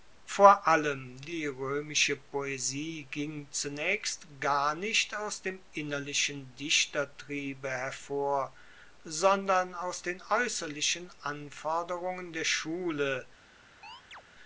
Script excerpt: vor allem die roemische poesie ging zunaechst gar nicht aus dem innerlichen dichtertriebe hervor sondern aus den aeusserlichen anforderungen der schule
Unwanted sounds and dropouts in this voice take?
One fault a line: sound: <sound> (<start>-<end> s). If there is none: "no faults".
sound: chirp (13.8-14.2 s)